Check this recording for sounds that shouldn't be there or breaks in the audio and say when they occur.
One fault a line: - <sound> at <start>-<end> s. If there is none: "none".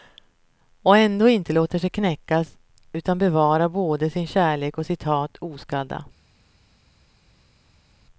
none